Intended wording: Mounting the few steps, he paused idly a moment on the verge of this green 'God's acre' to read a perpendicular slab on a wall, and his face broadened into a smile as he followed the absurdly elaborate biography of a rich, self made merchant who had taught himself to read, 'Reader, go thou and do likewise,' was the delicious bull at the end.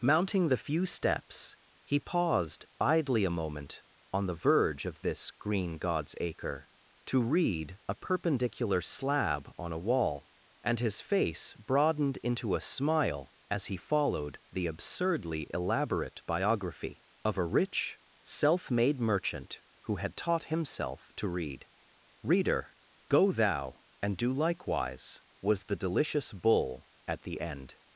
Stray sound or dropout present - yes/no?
no